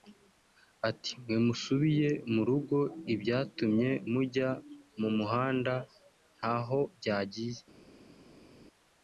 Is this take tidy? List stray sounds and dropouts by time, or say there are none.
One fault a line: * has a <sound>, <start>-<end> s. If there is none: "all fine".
all fine